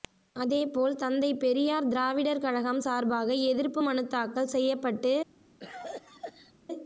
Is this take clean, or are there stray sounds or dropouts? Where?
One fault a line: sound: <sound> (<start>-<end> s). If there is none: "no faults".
sound: cough (5.6-6.5 s)